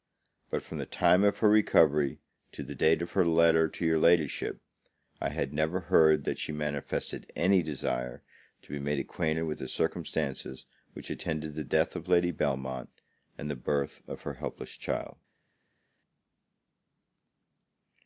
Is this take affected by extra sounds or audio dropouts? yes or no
no